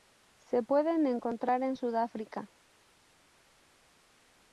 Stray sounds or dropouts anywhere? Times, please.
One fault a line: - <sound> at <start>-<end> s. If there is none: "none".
none